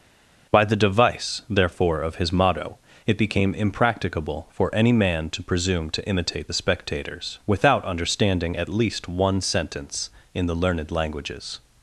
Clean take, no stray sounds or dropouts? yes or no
yes